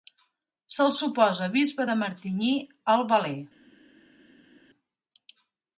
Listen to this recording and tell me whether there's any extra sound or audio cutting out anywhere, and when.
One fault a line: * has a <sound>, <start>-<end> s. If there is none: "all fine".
all fine